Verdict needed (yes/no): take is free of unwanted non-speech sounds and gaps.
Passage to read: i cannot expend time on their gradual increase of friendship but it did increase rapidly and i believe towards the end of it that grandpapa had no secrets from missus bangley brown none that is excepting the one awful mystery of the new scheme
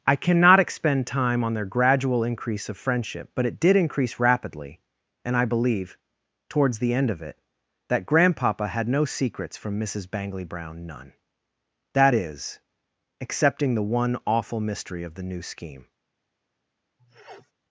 no